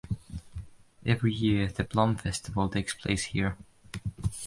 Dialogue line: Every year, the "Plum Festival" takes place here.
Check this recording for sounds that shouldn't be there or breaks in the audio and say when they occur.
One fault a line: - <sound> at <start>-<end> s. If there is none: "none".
none